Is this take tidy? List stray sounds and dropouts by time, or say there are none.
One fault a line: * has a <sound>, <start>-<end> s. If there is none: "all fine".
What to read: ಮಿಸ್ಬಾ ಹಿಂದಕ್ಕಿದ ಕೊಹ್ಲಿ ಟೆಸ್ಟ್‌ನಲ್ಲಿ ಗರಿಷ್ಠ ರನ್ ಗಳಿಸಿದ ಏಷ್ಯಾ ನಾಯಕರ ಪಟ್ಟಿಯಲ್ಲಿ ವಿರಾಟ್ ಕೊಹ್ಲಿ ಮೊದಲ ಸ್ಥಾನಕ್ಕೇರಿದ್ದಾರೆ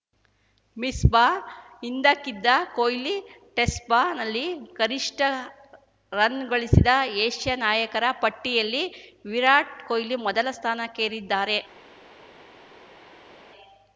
all fine